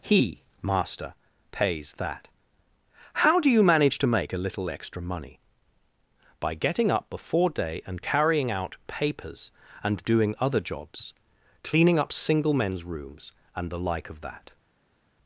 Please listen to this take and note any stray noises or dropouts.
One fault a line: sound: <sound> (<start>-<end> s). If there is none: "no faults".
no faults